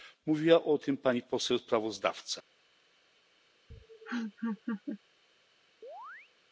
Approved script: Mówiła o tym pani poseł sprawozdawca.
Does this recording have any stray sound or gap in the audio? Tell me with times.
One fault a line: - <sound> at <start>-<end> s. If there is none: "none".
- laugh at 3.7-5.0 s
- chirp at 5.8-6.3 s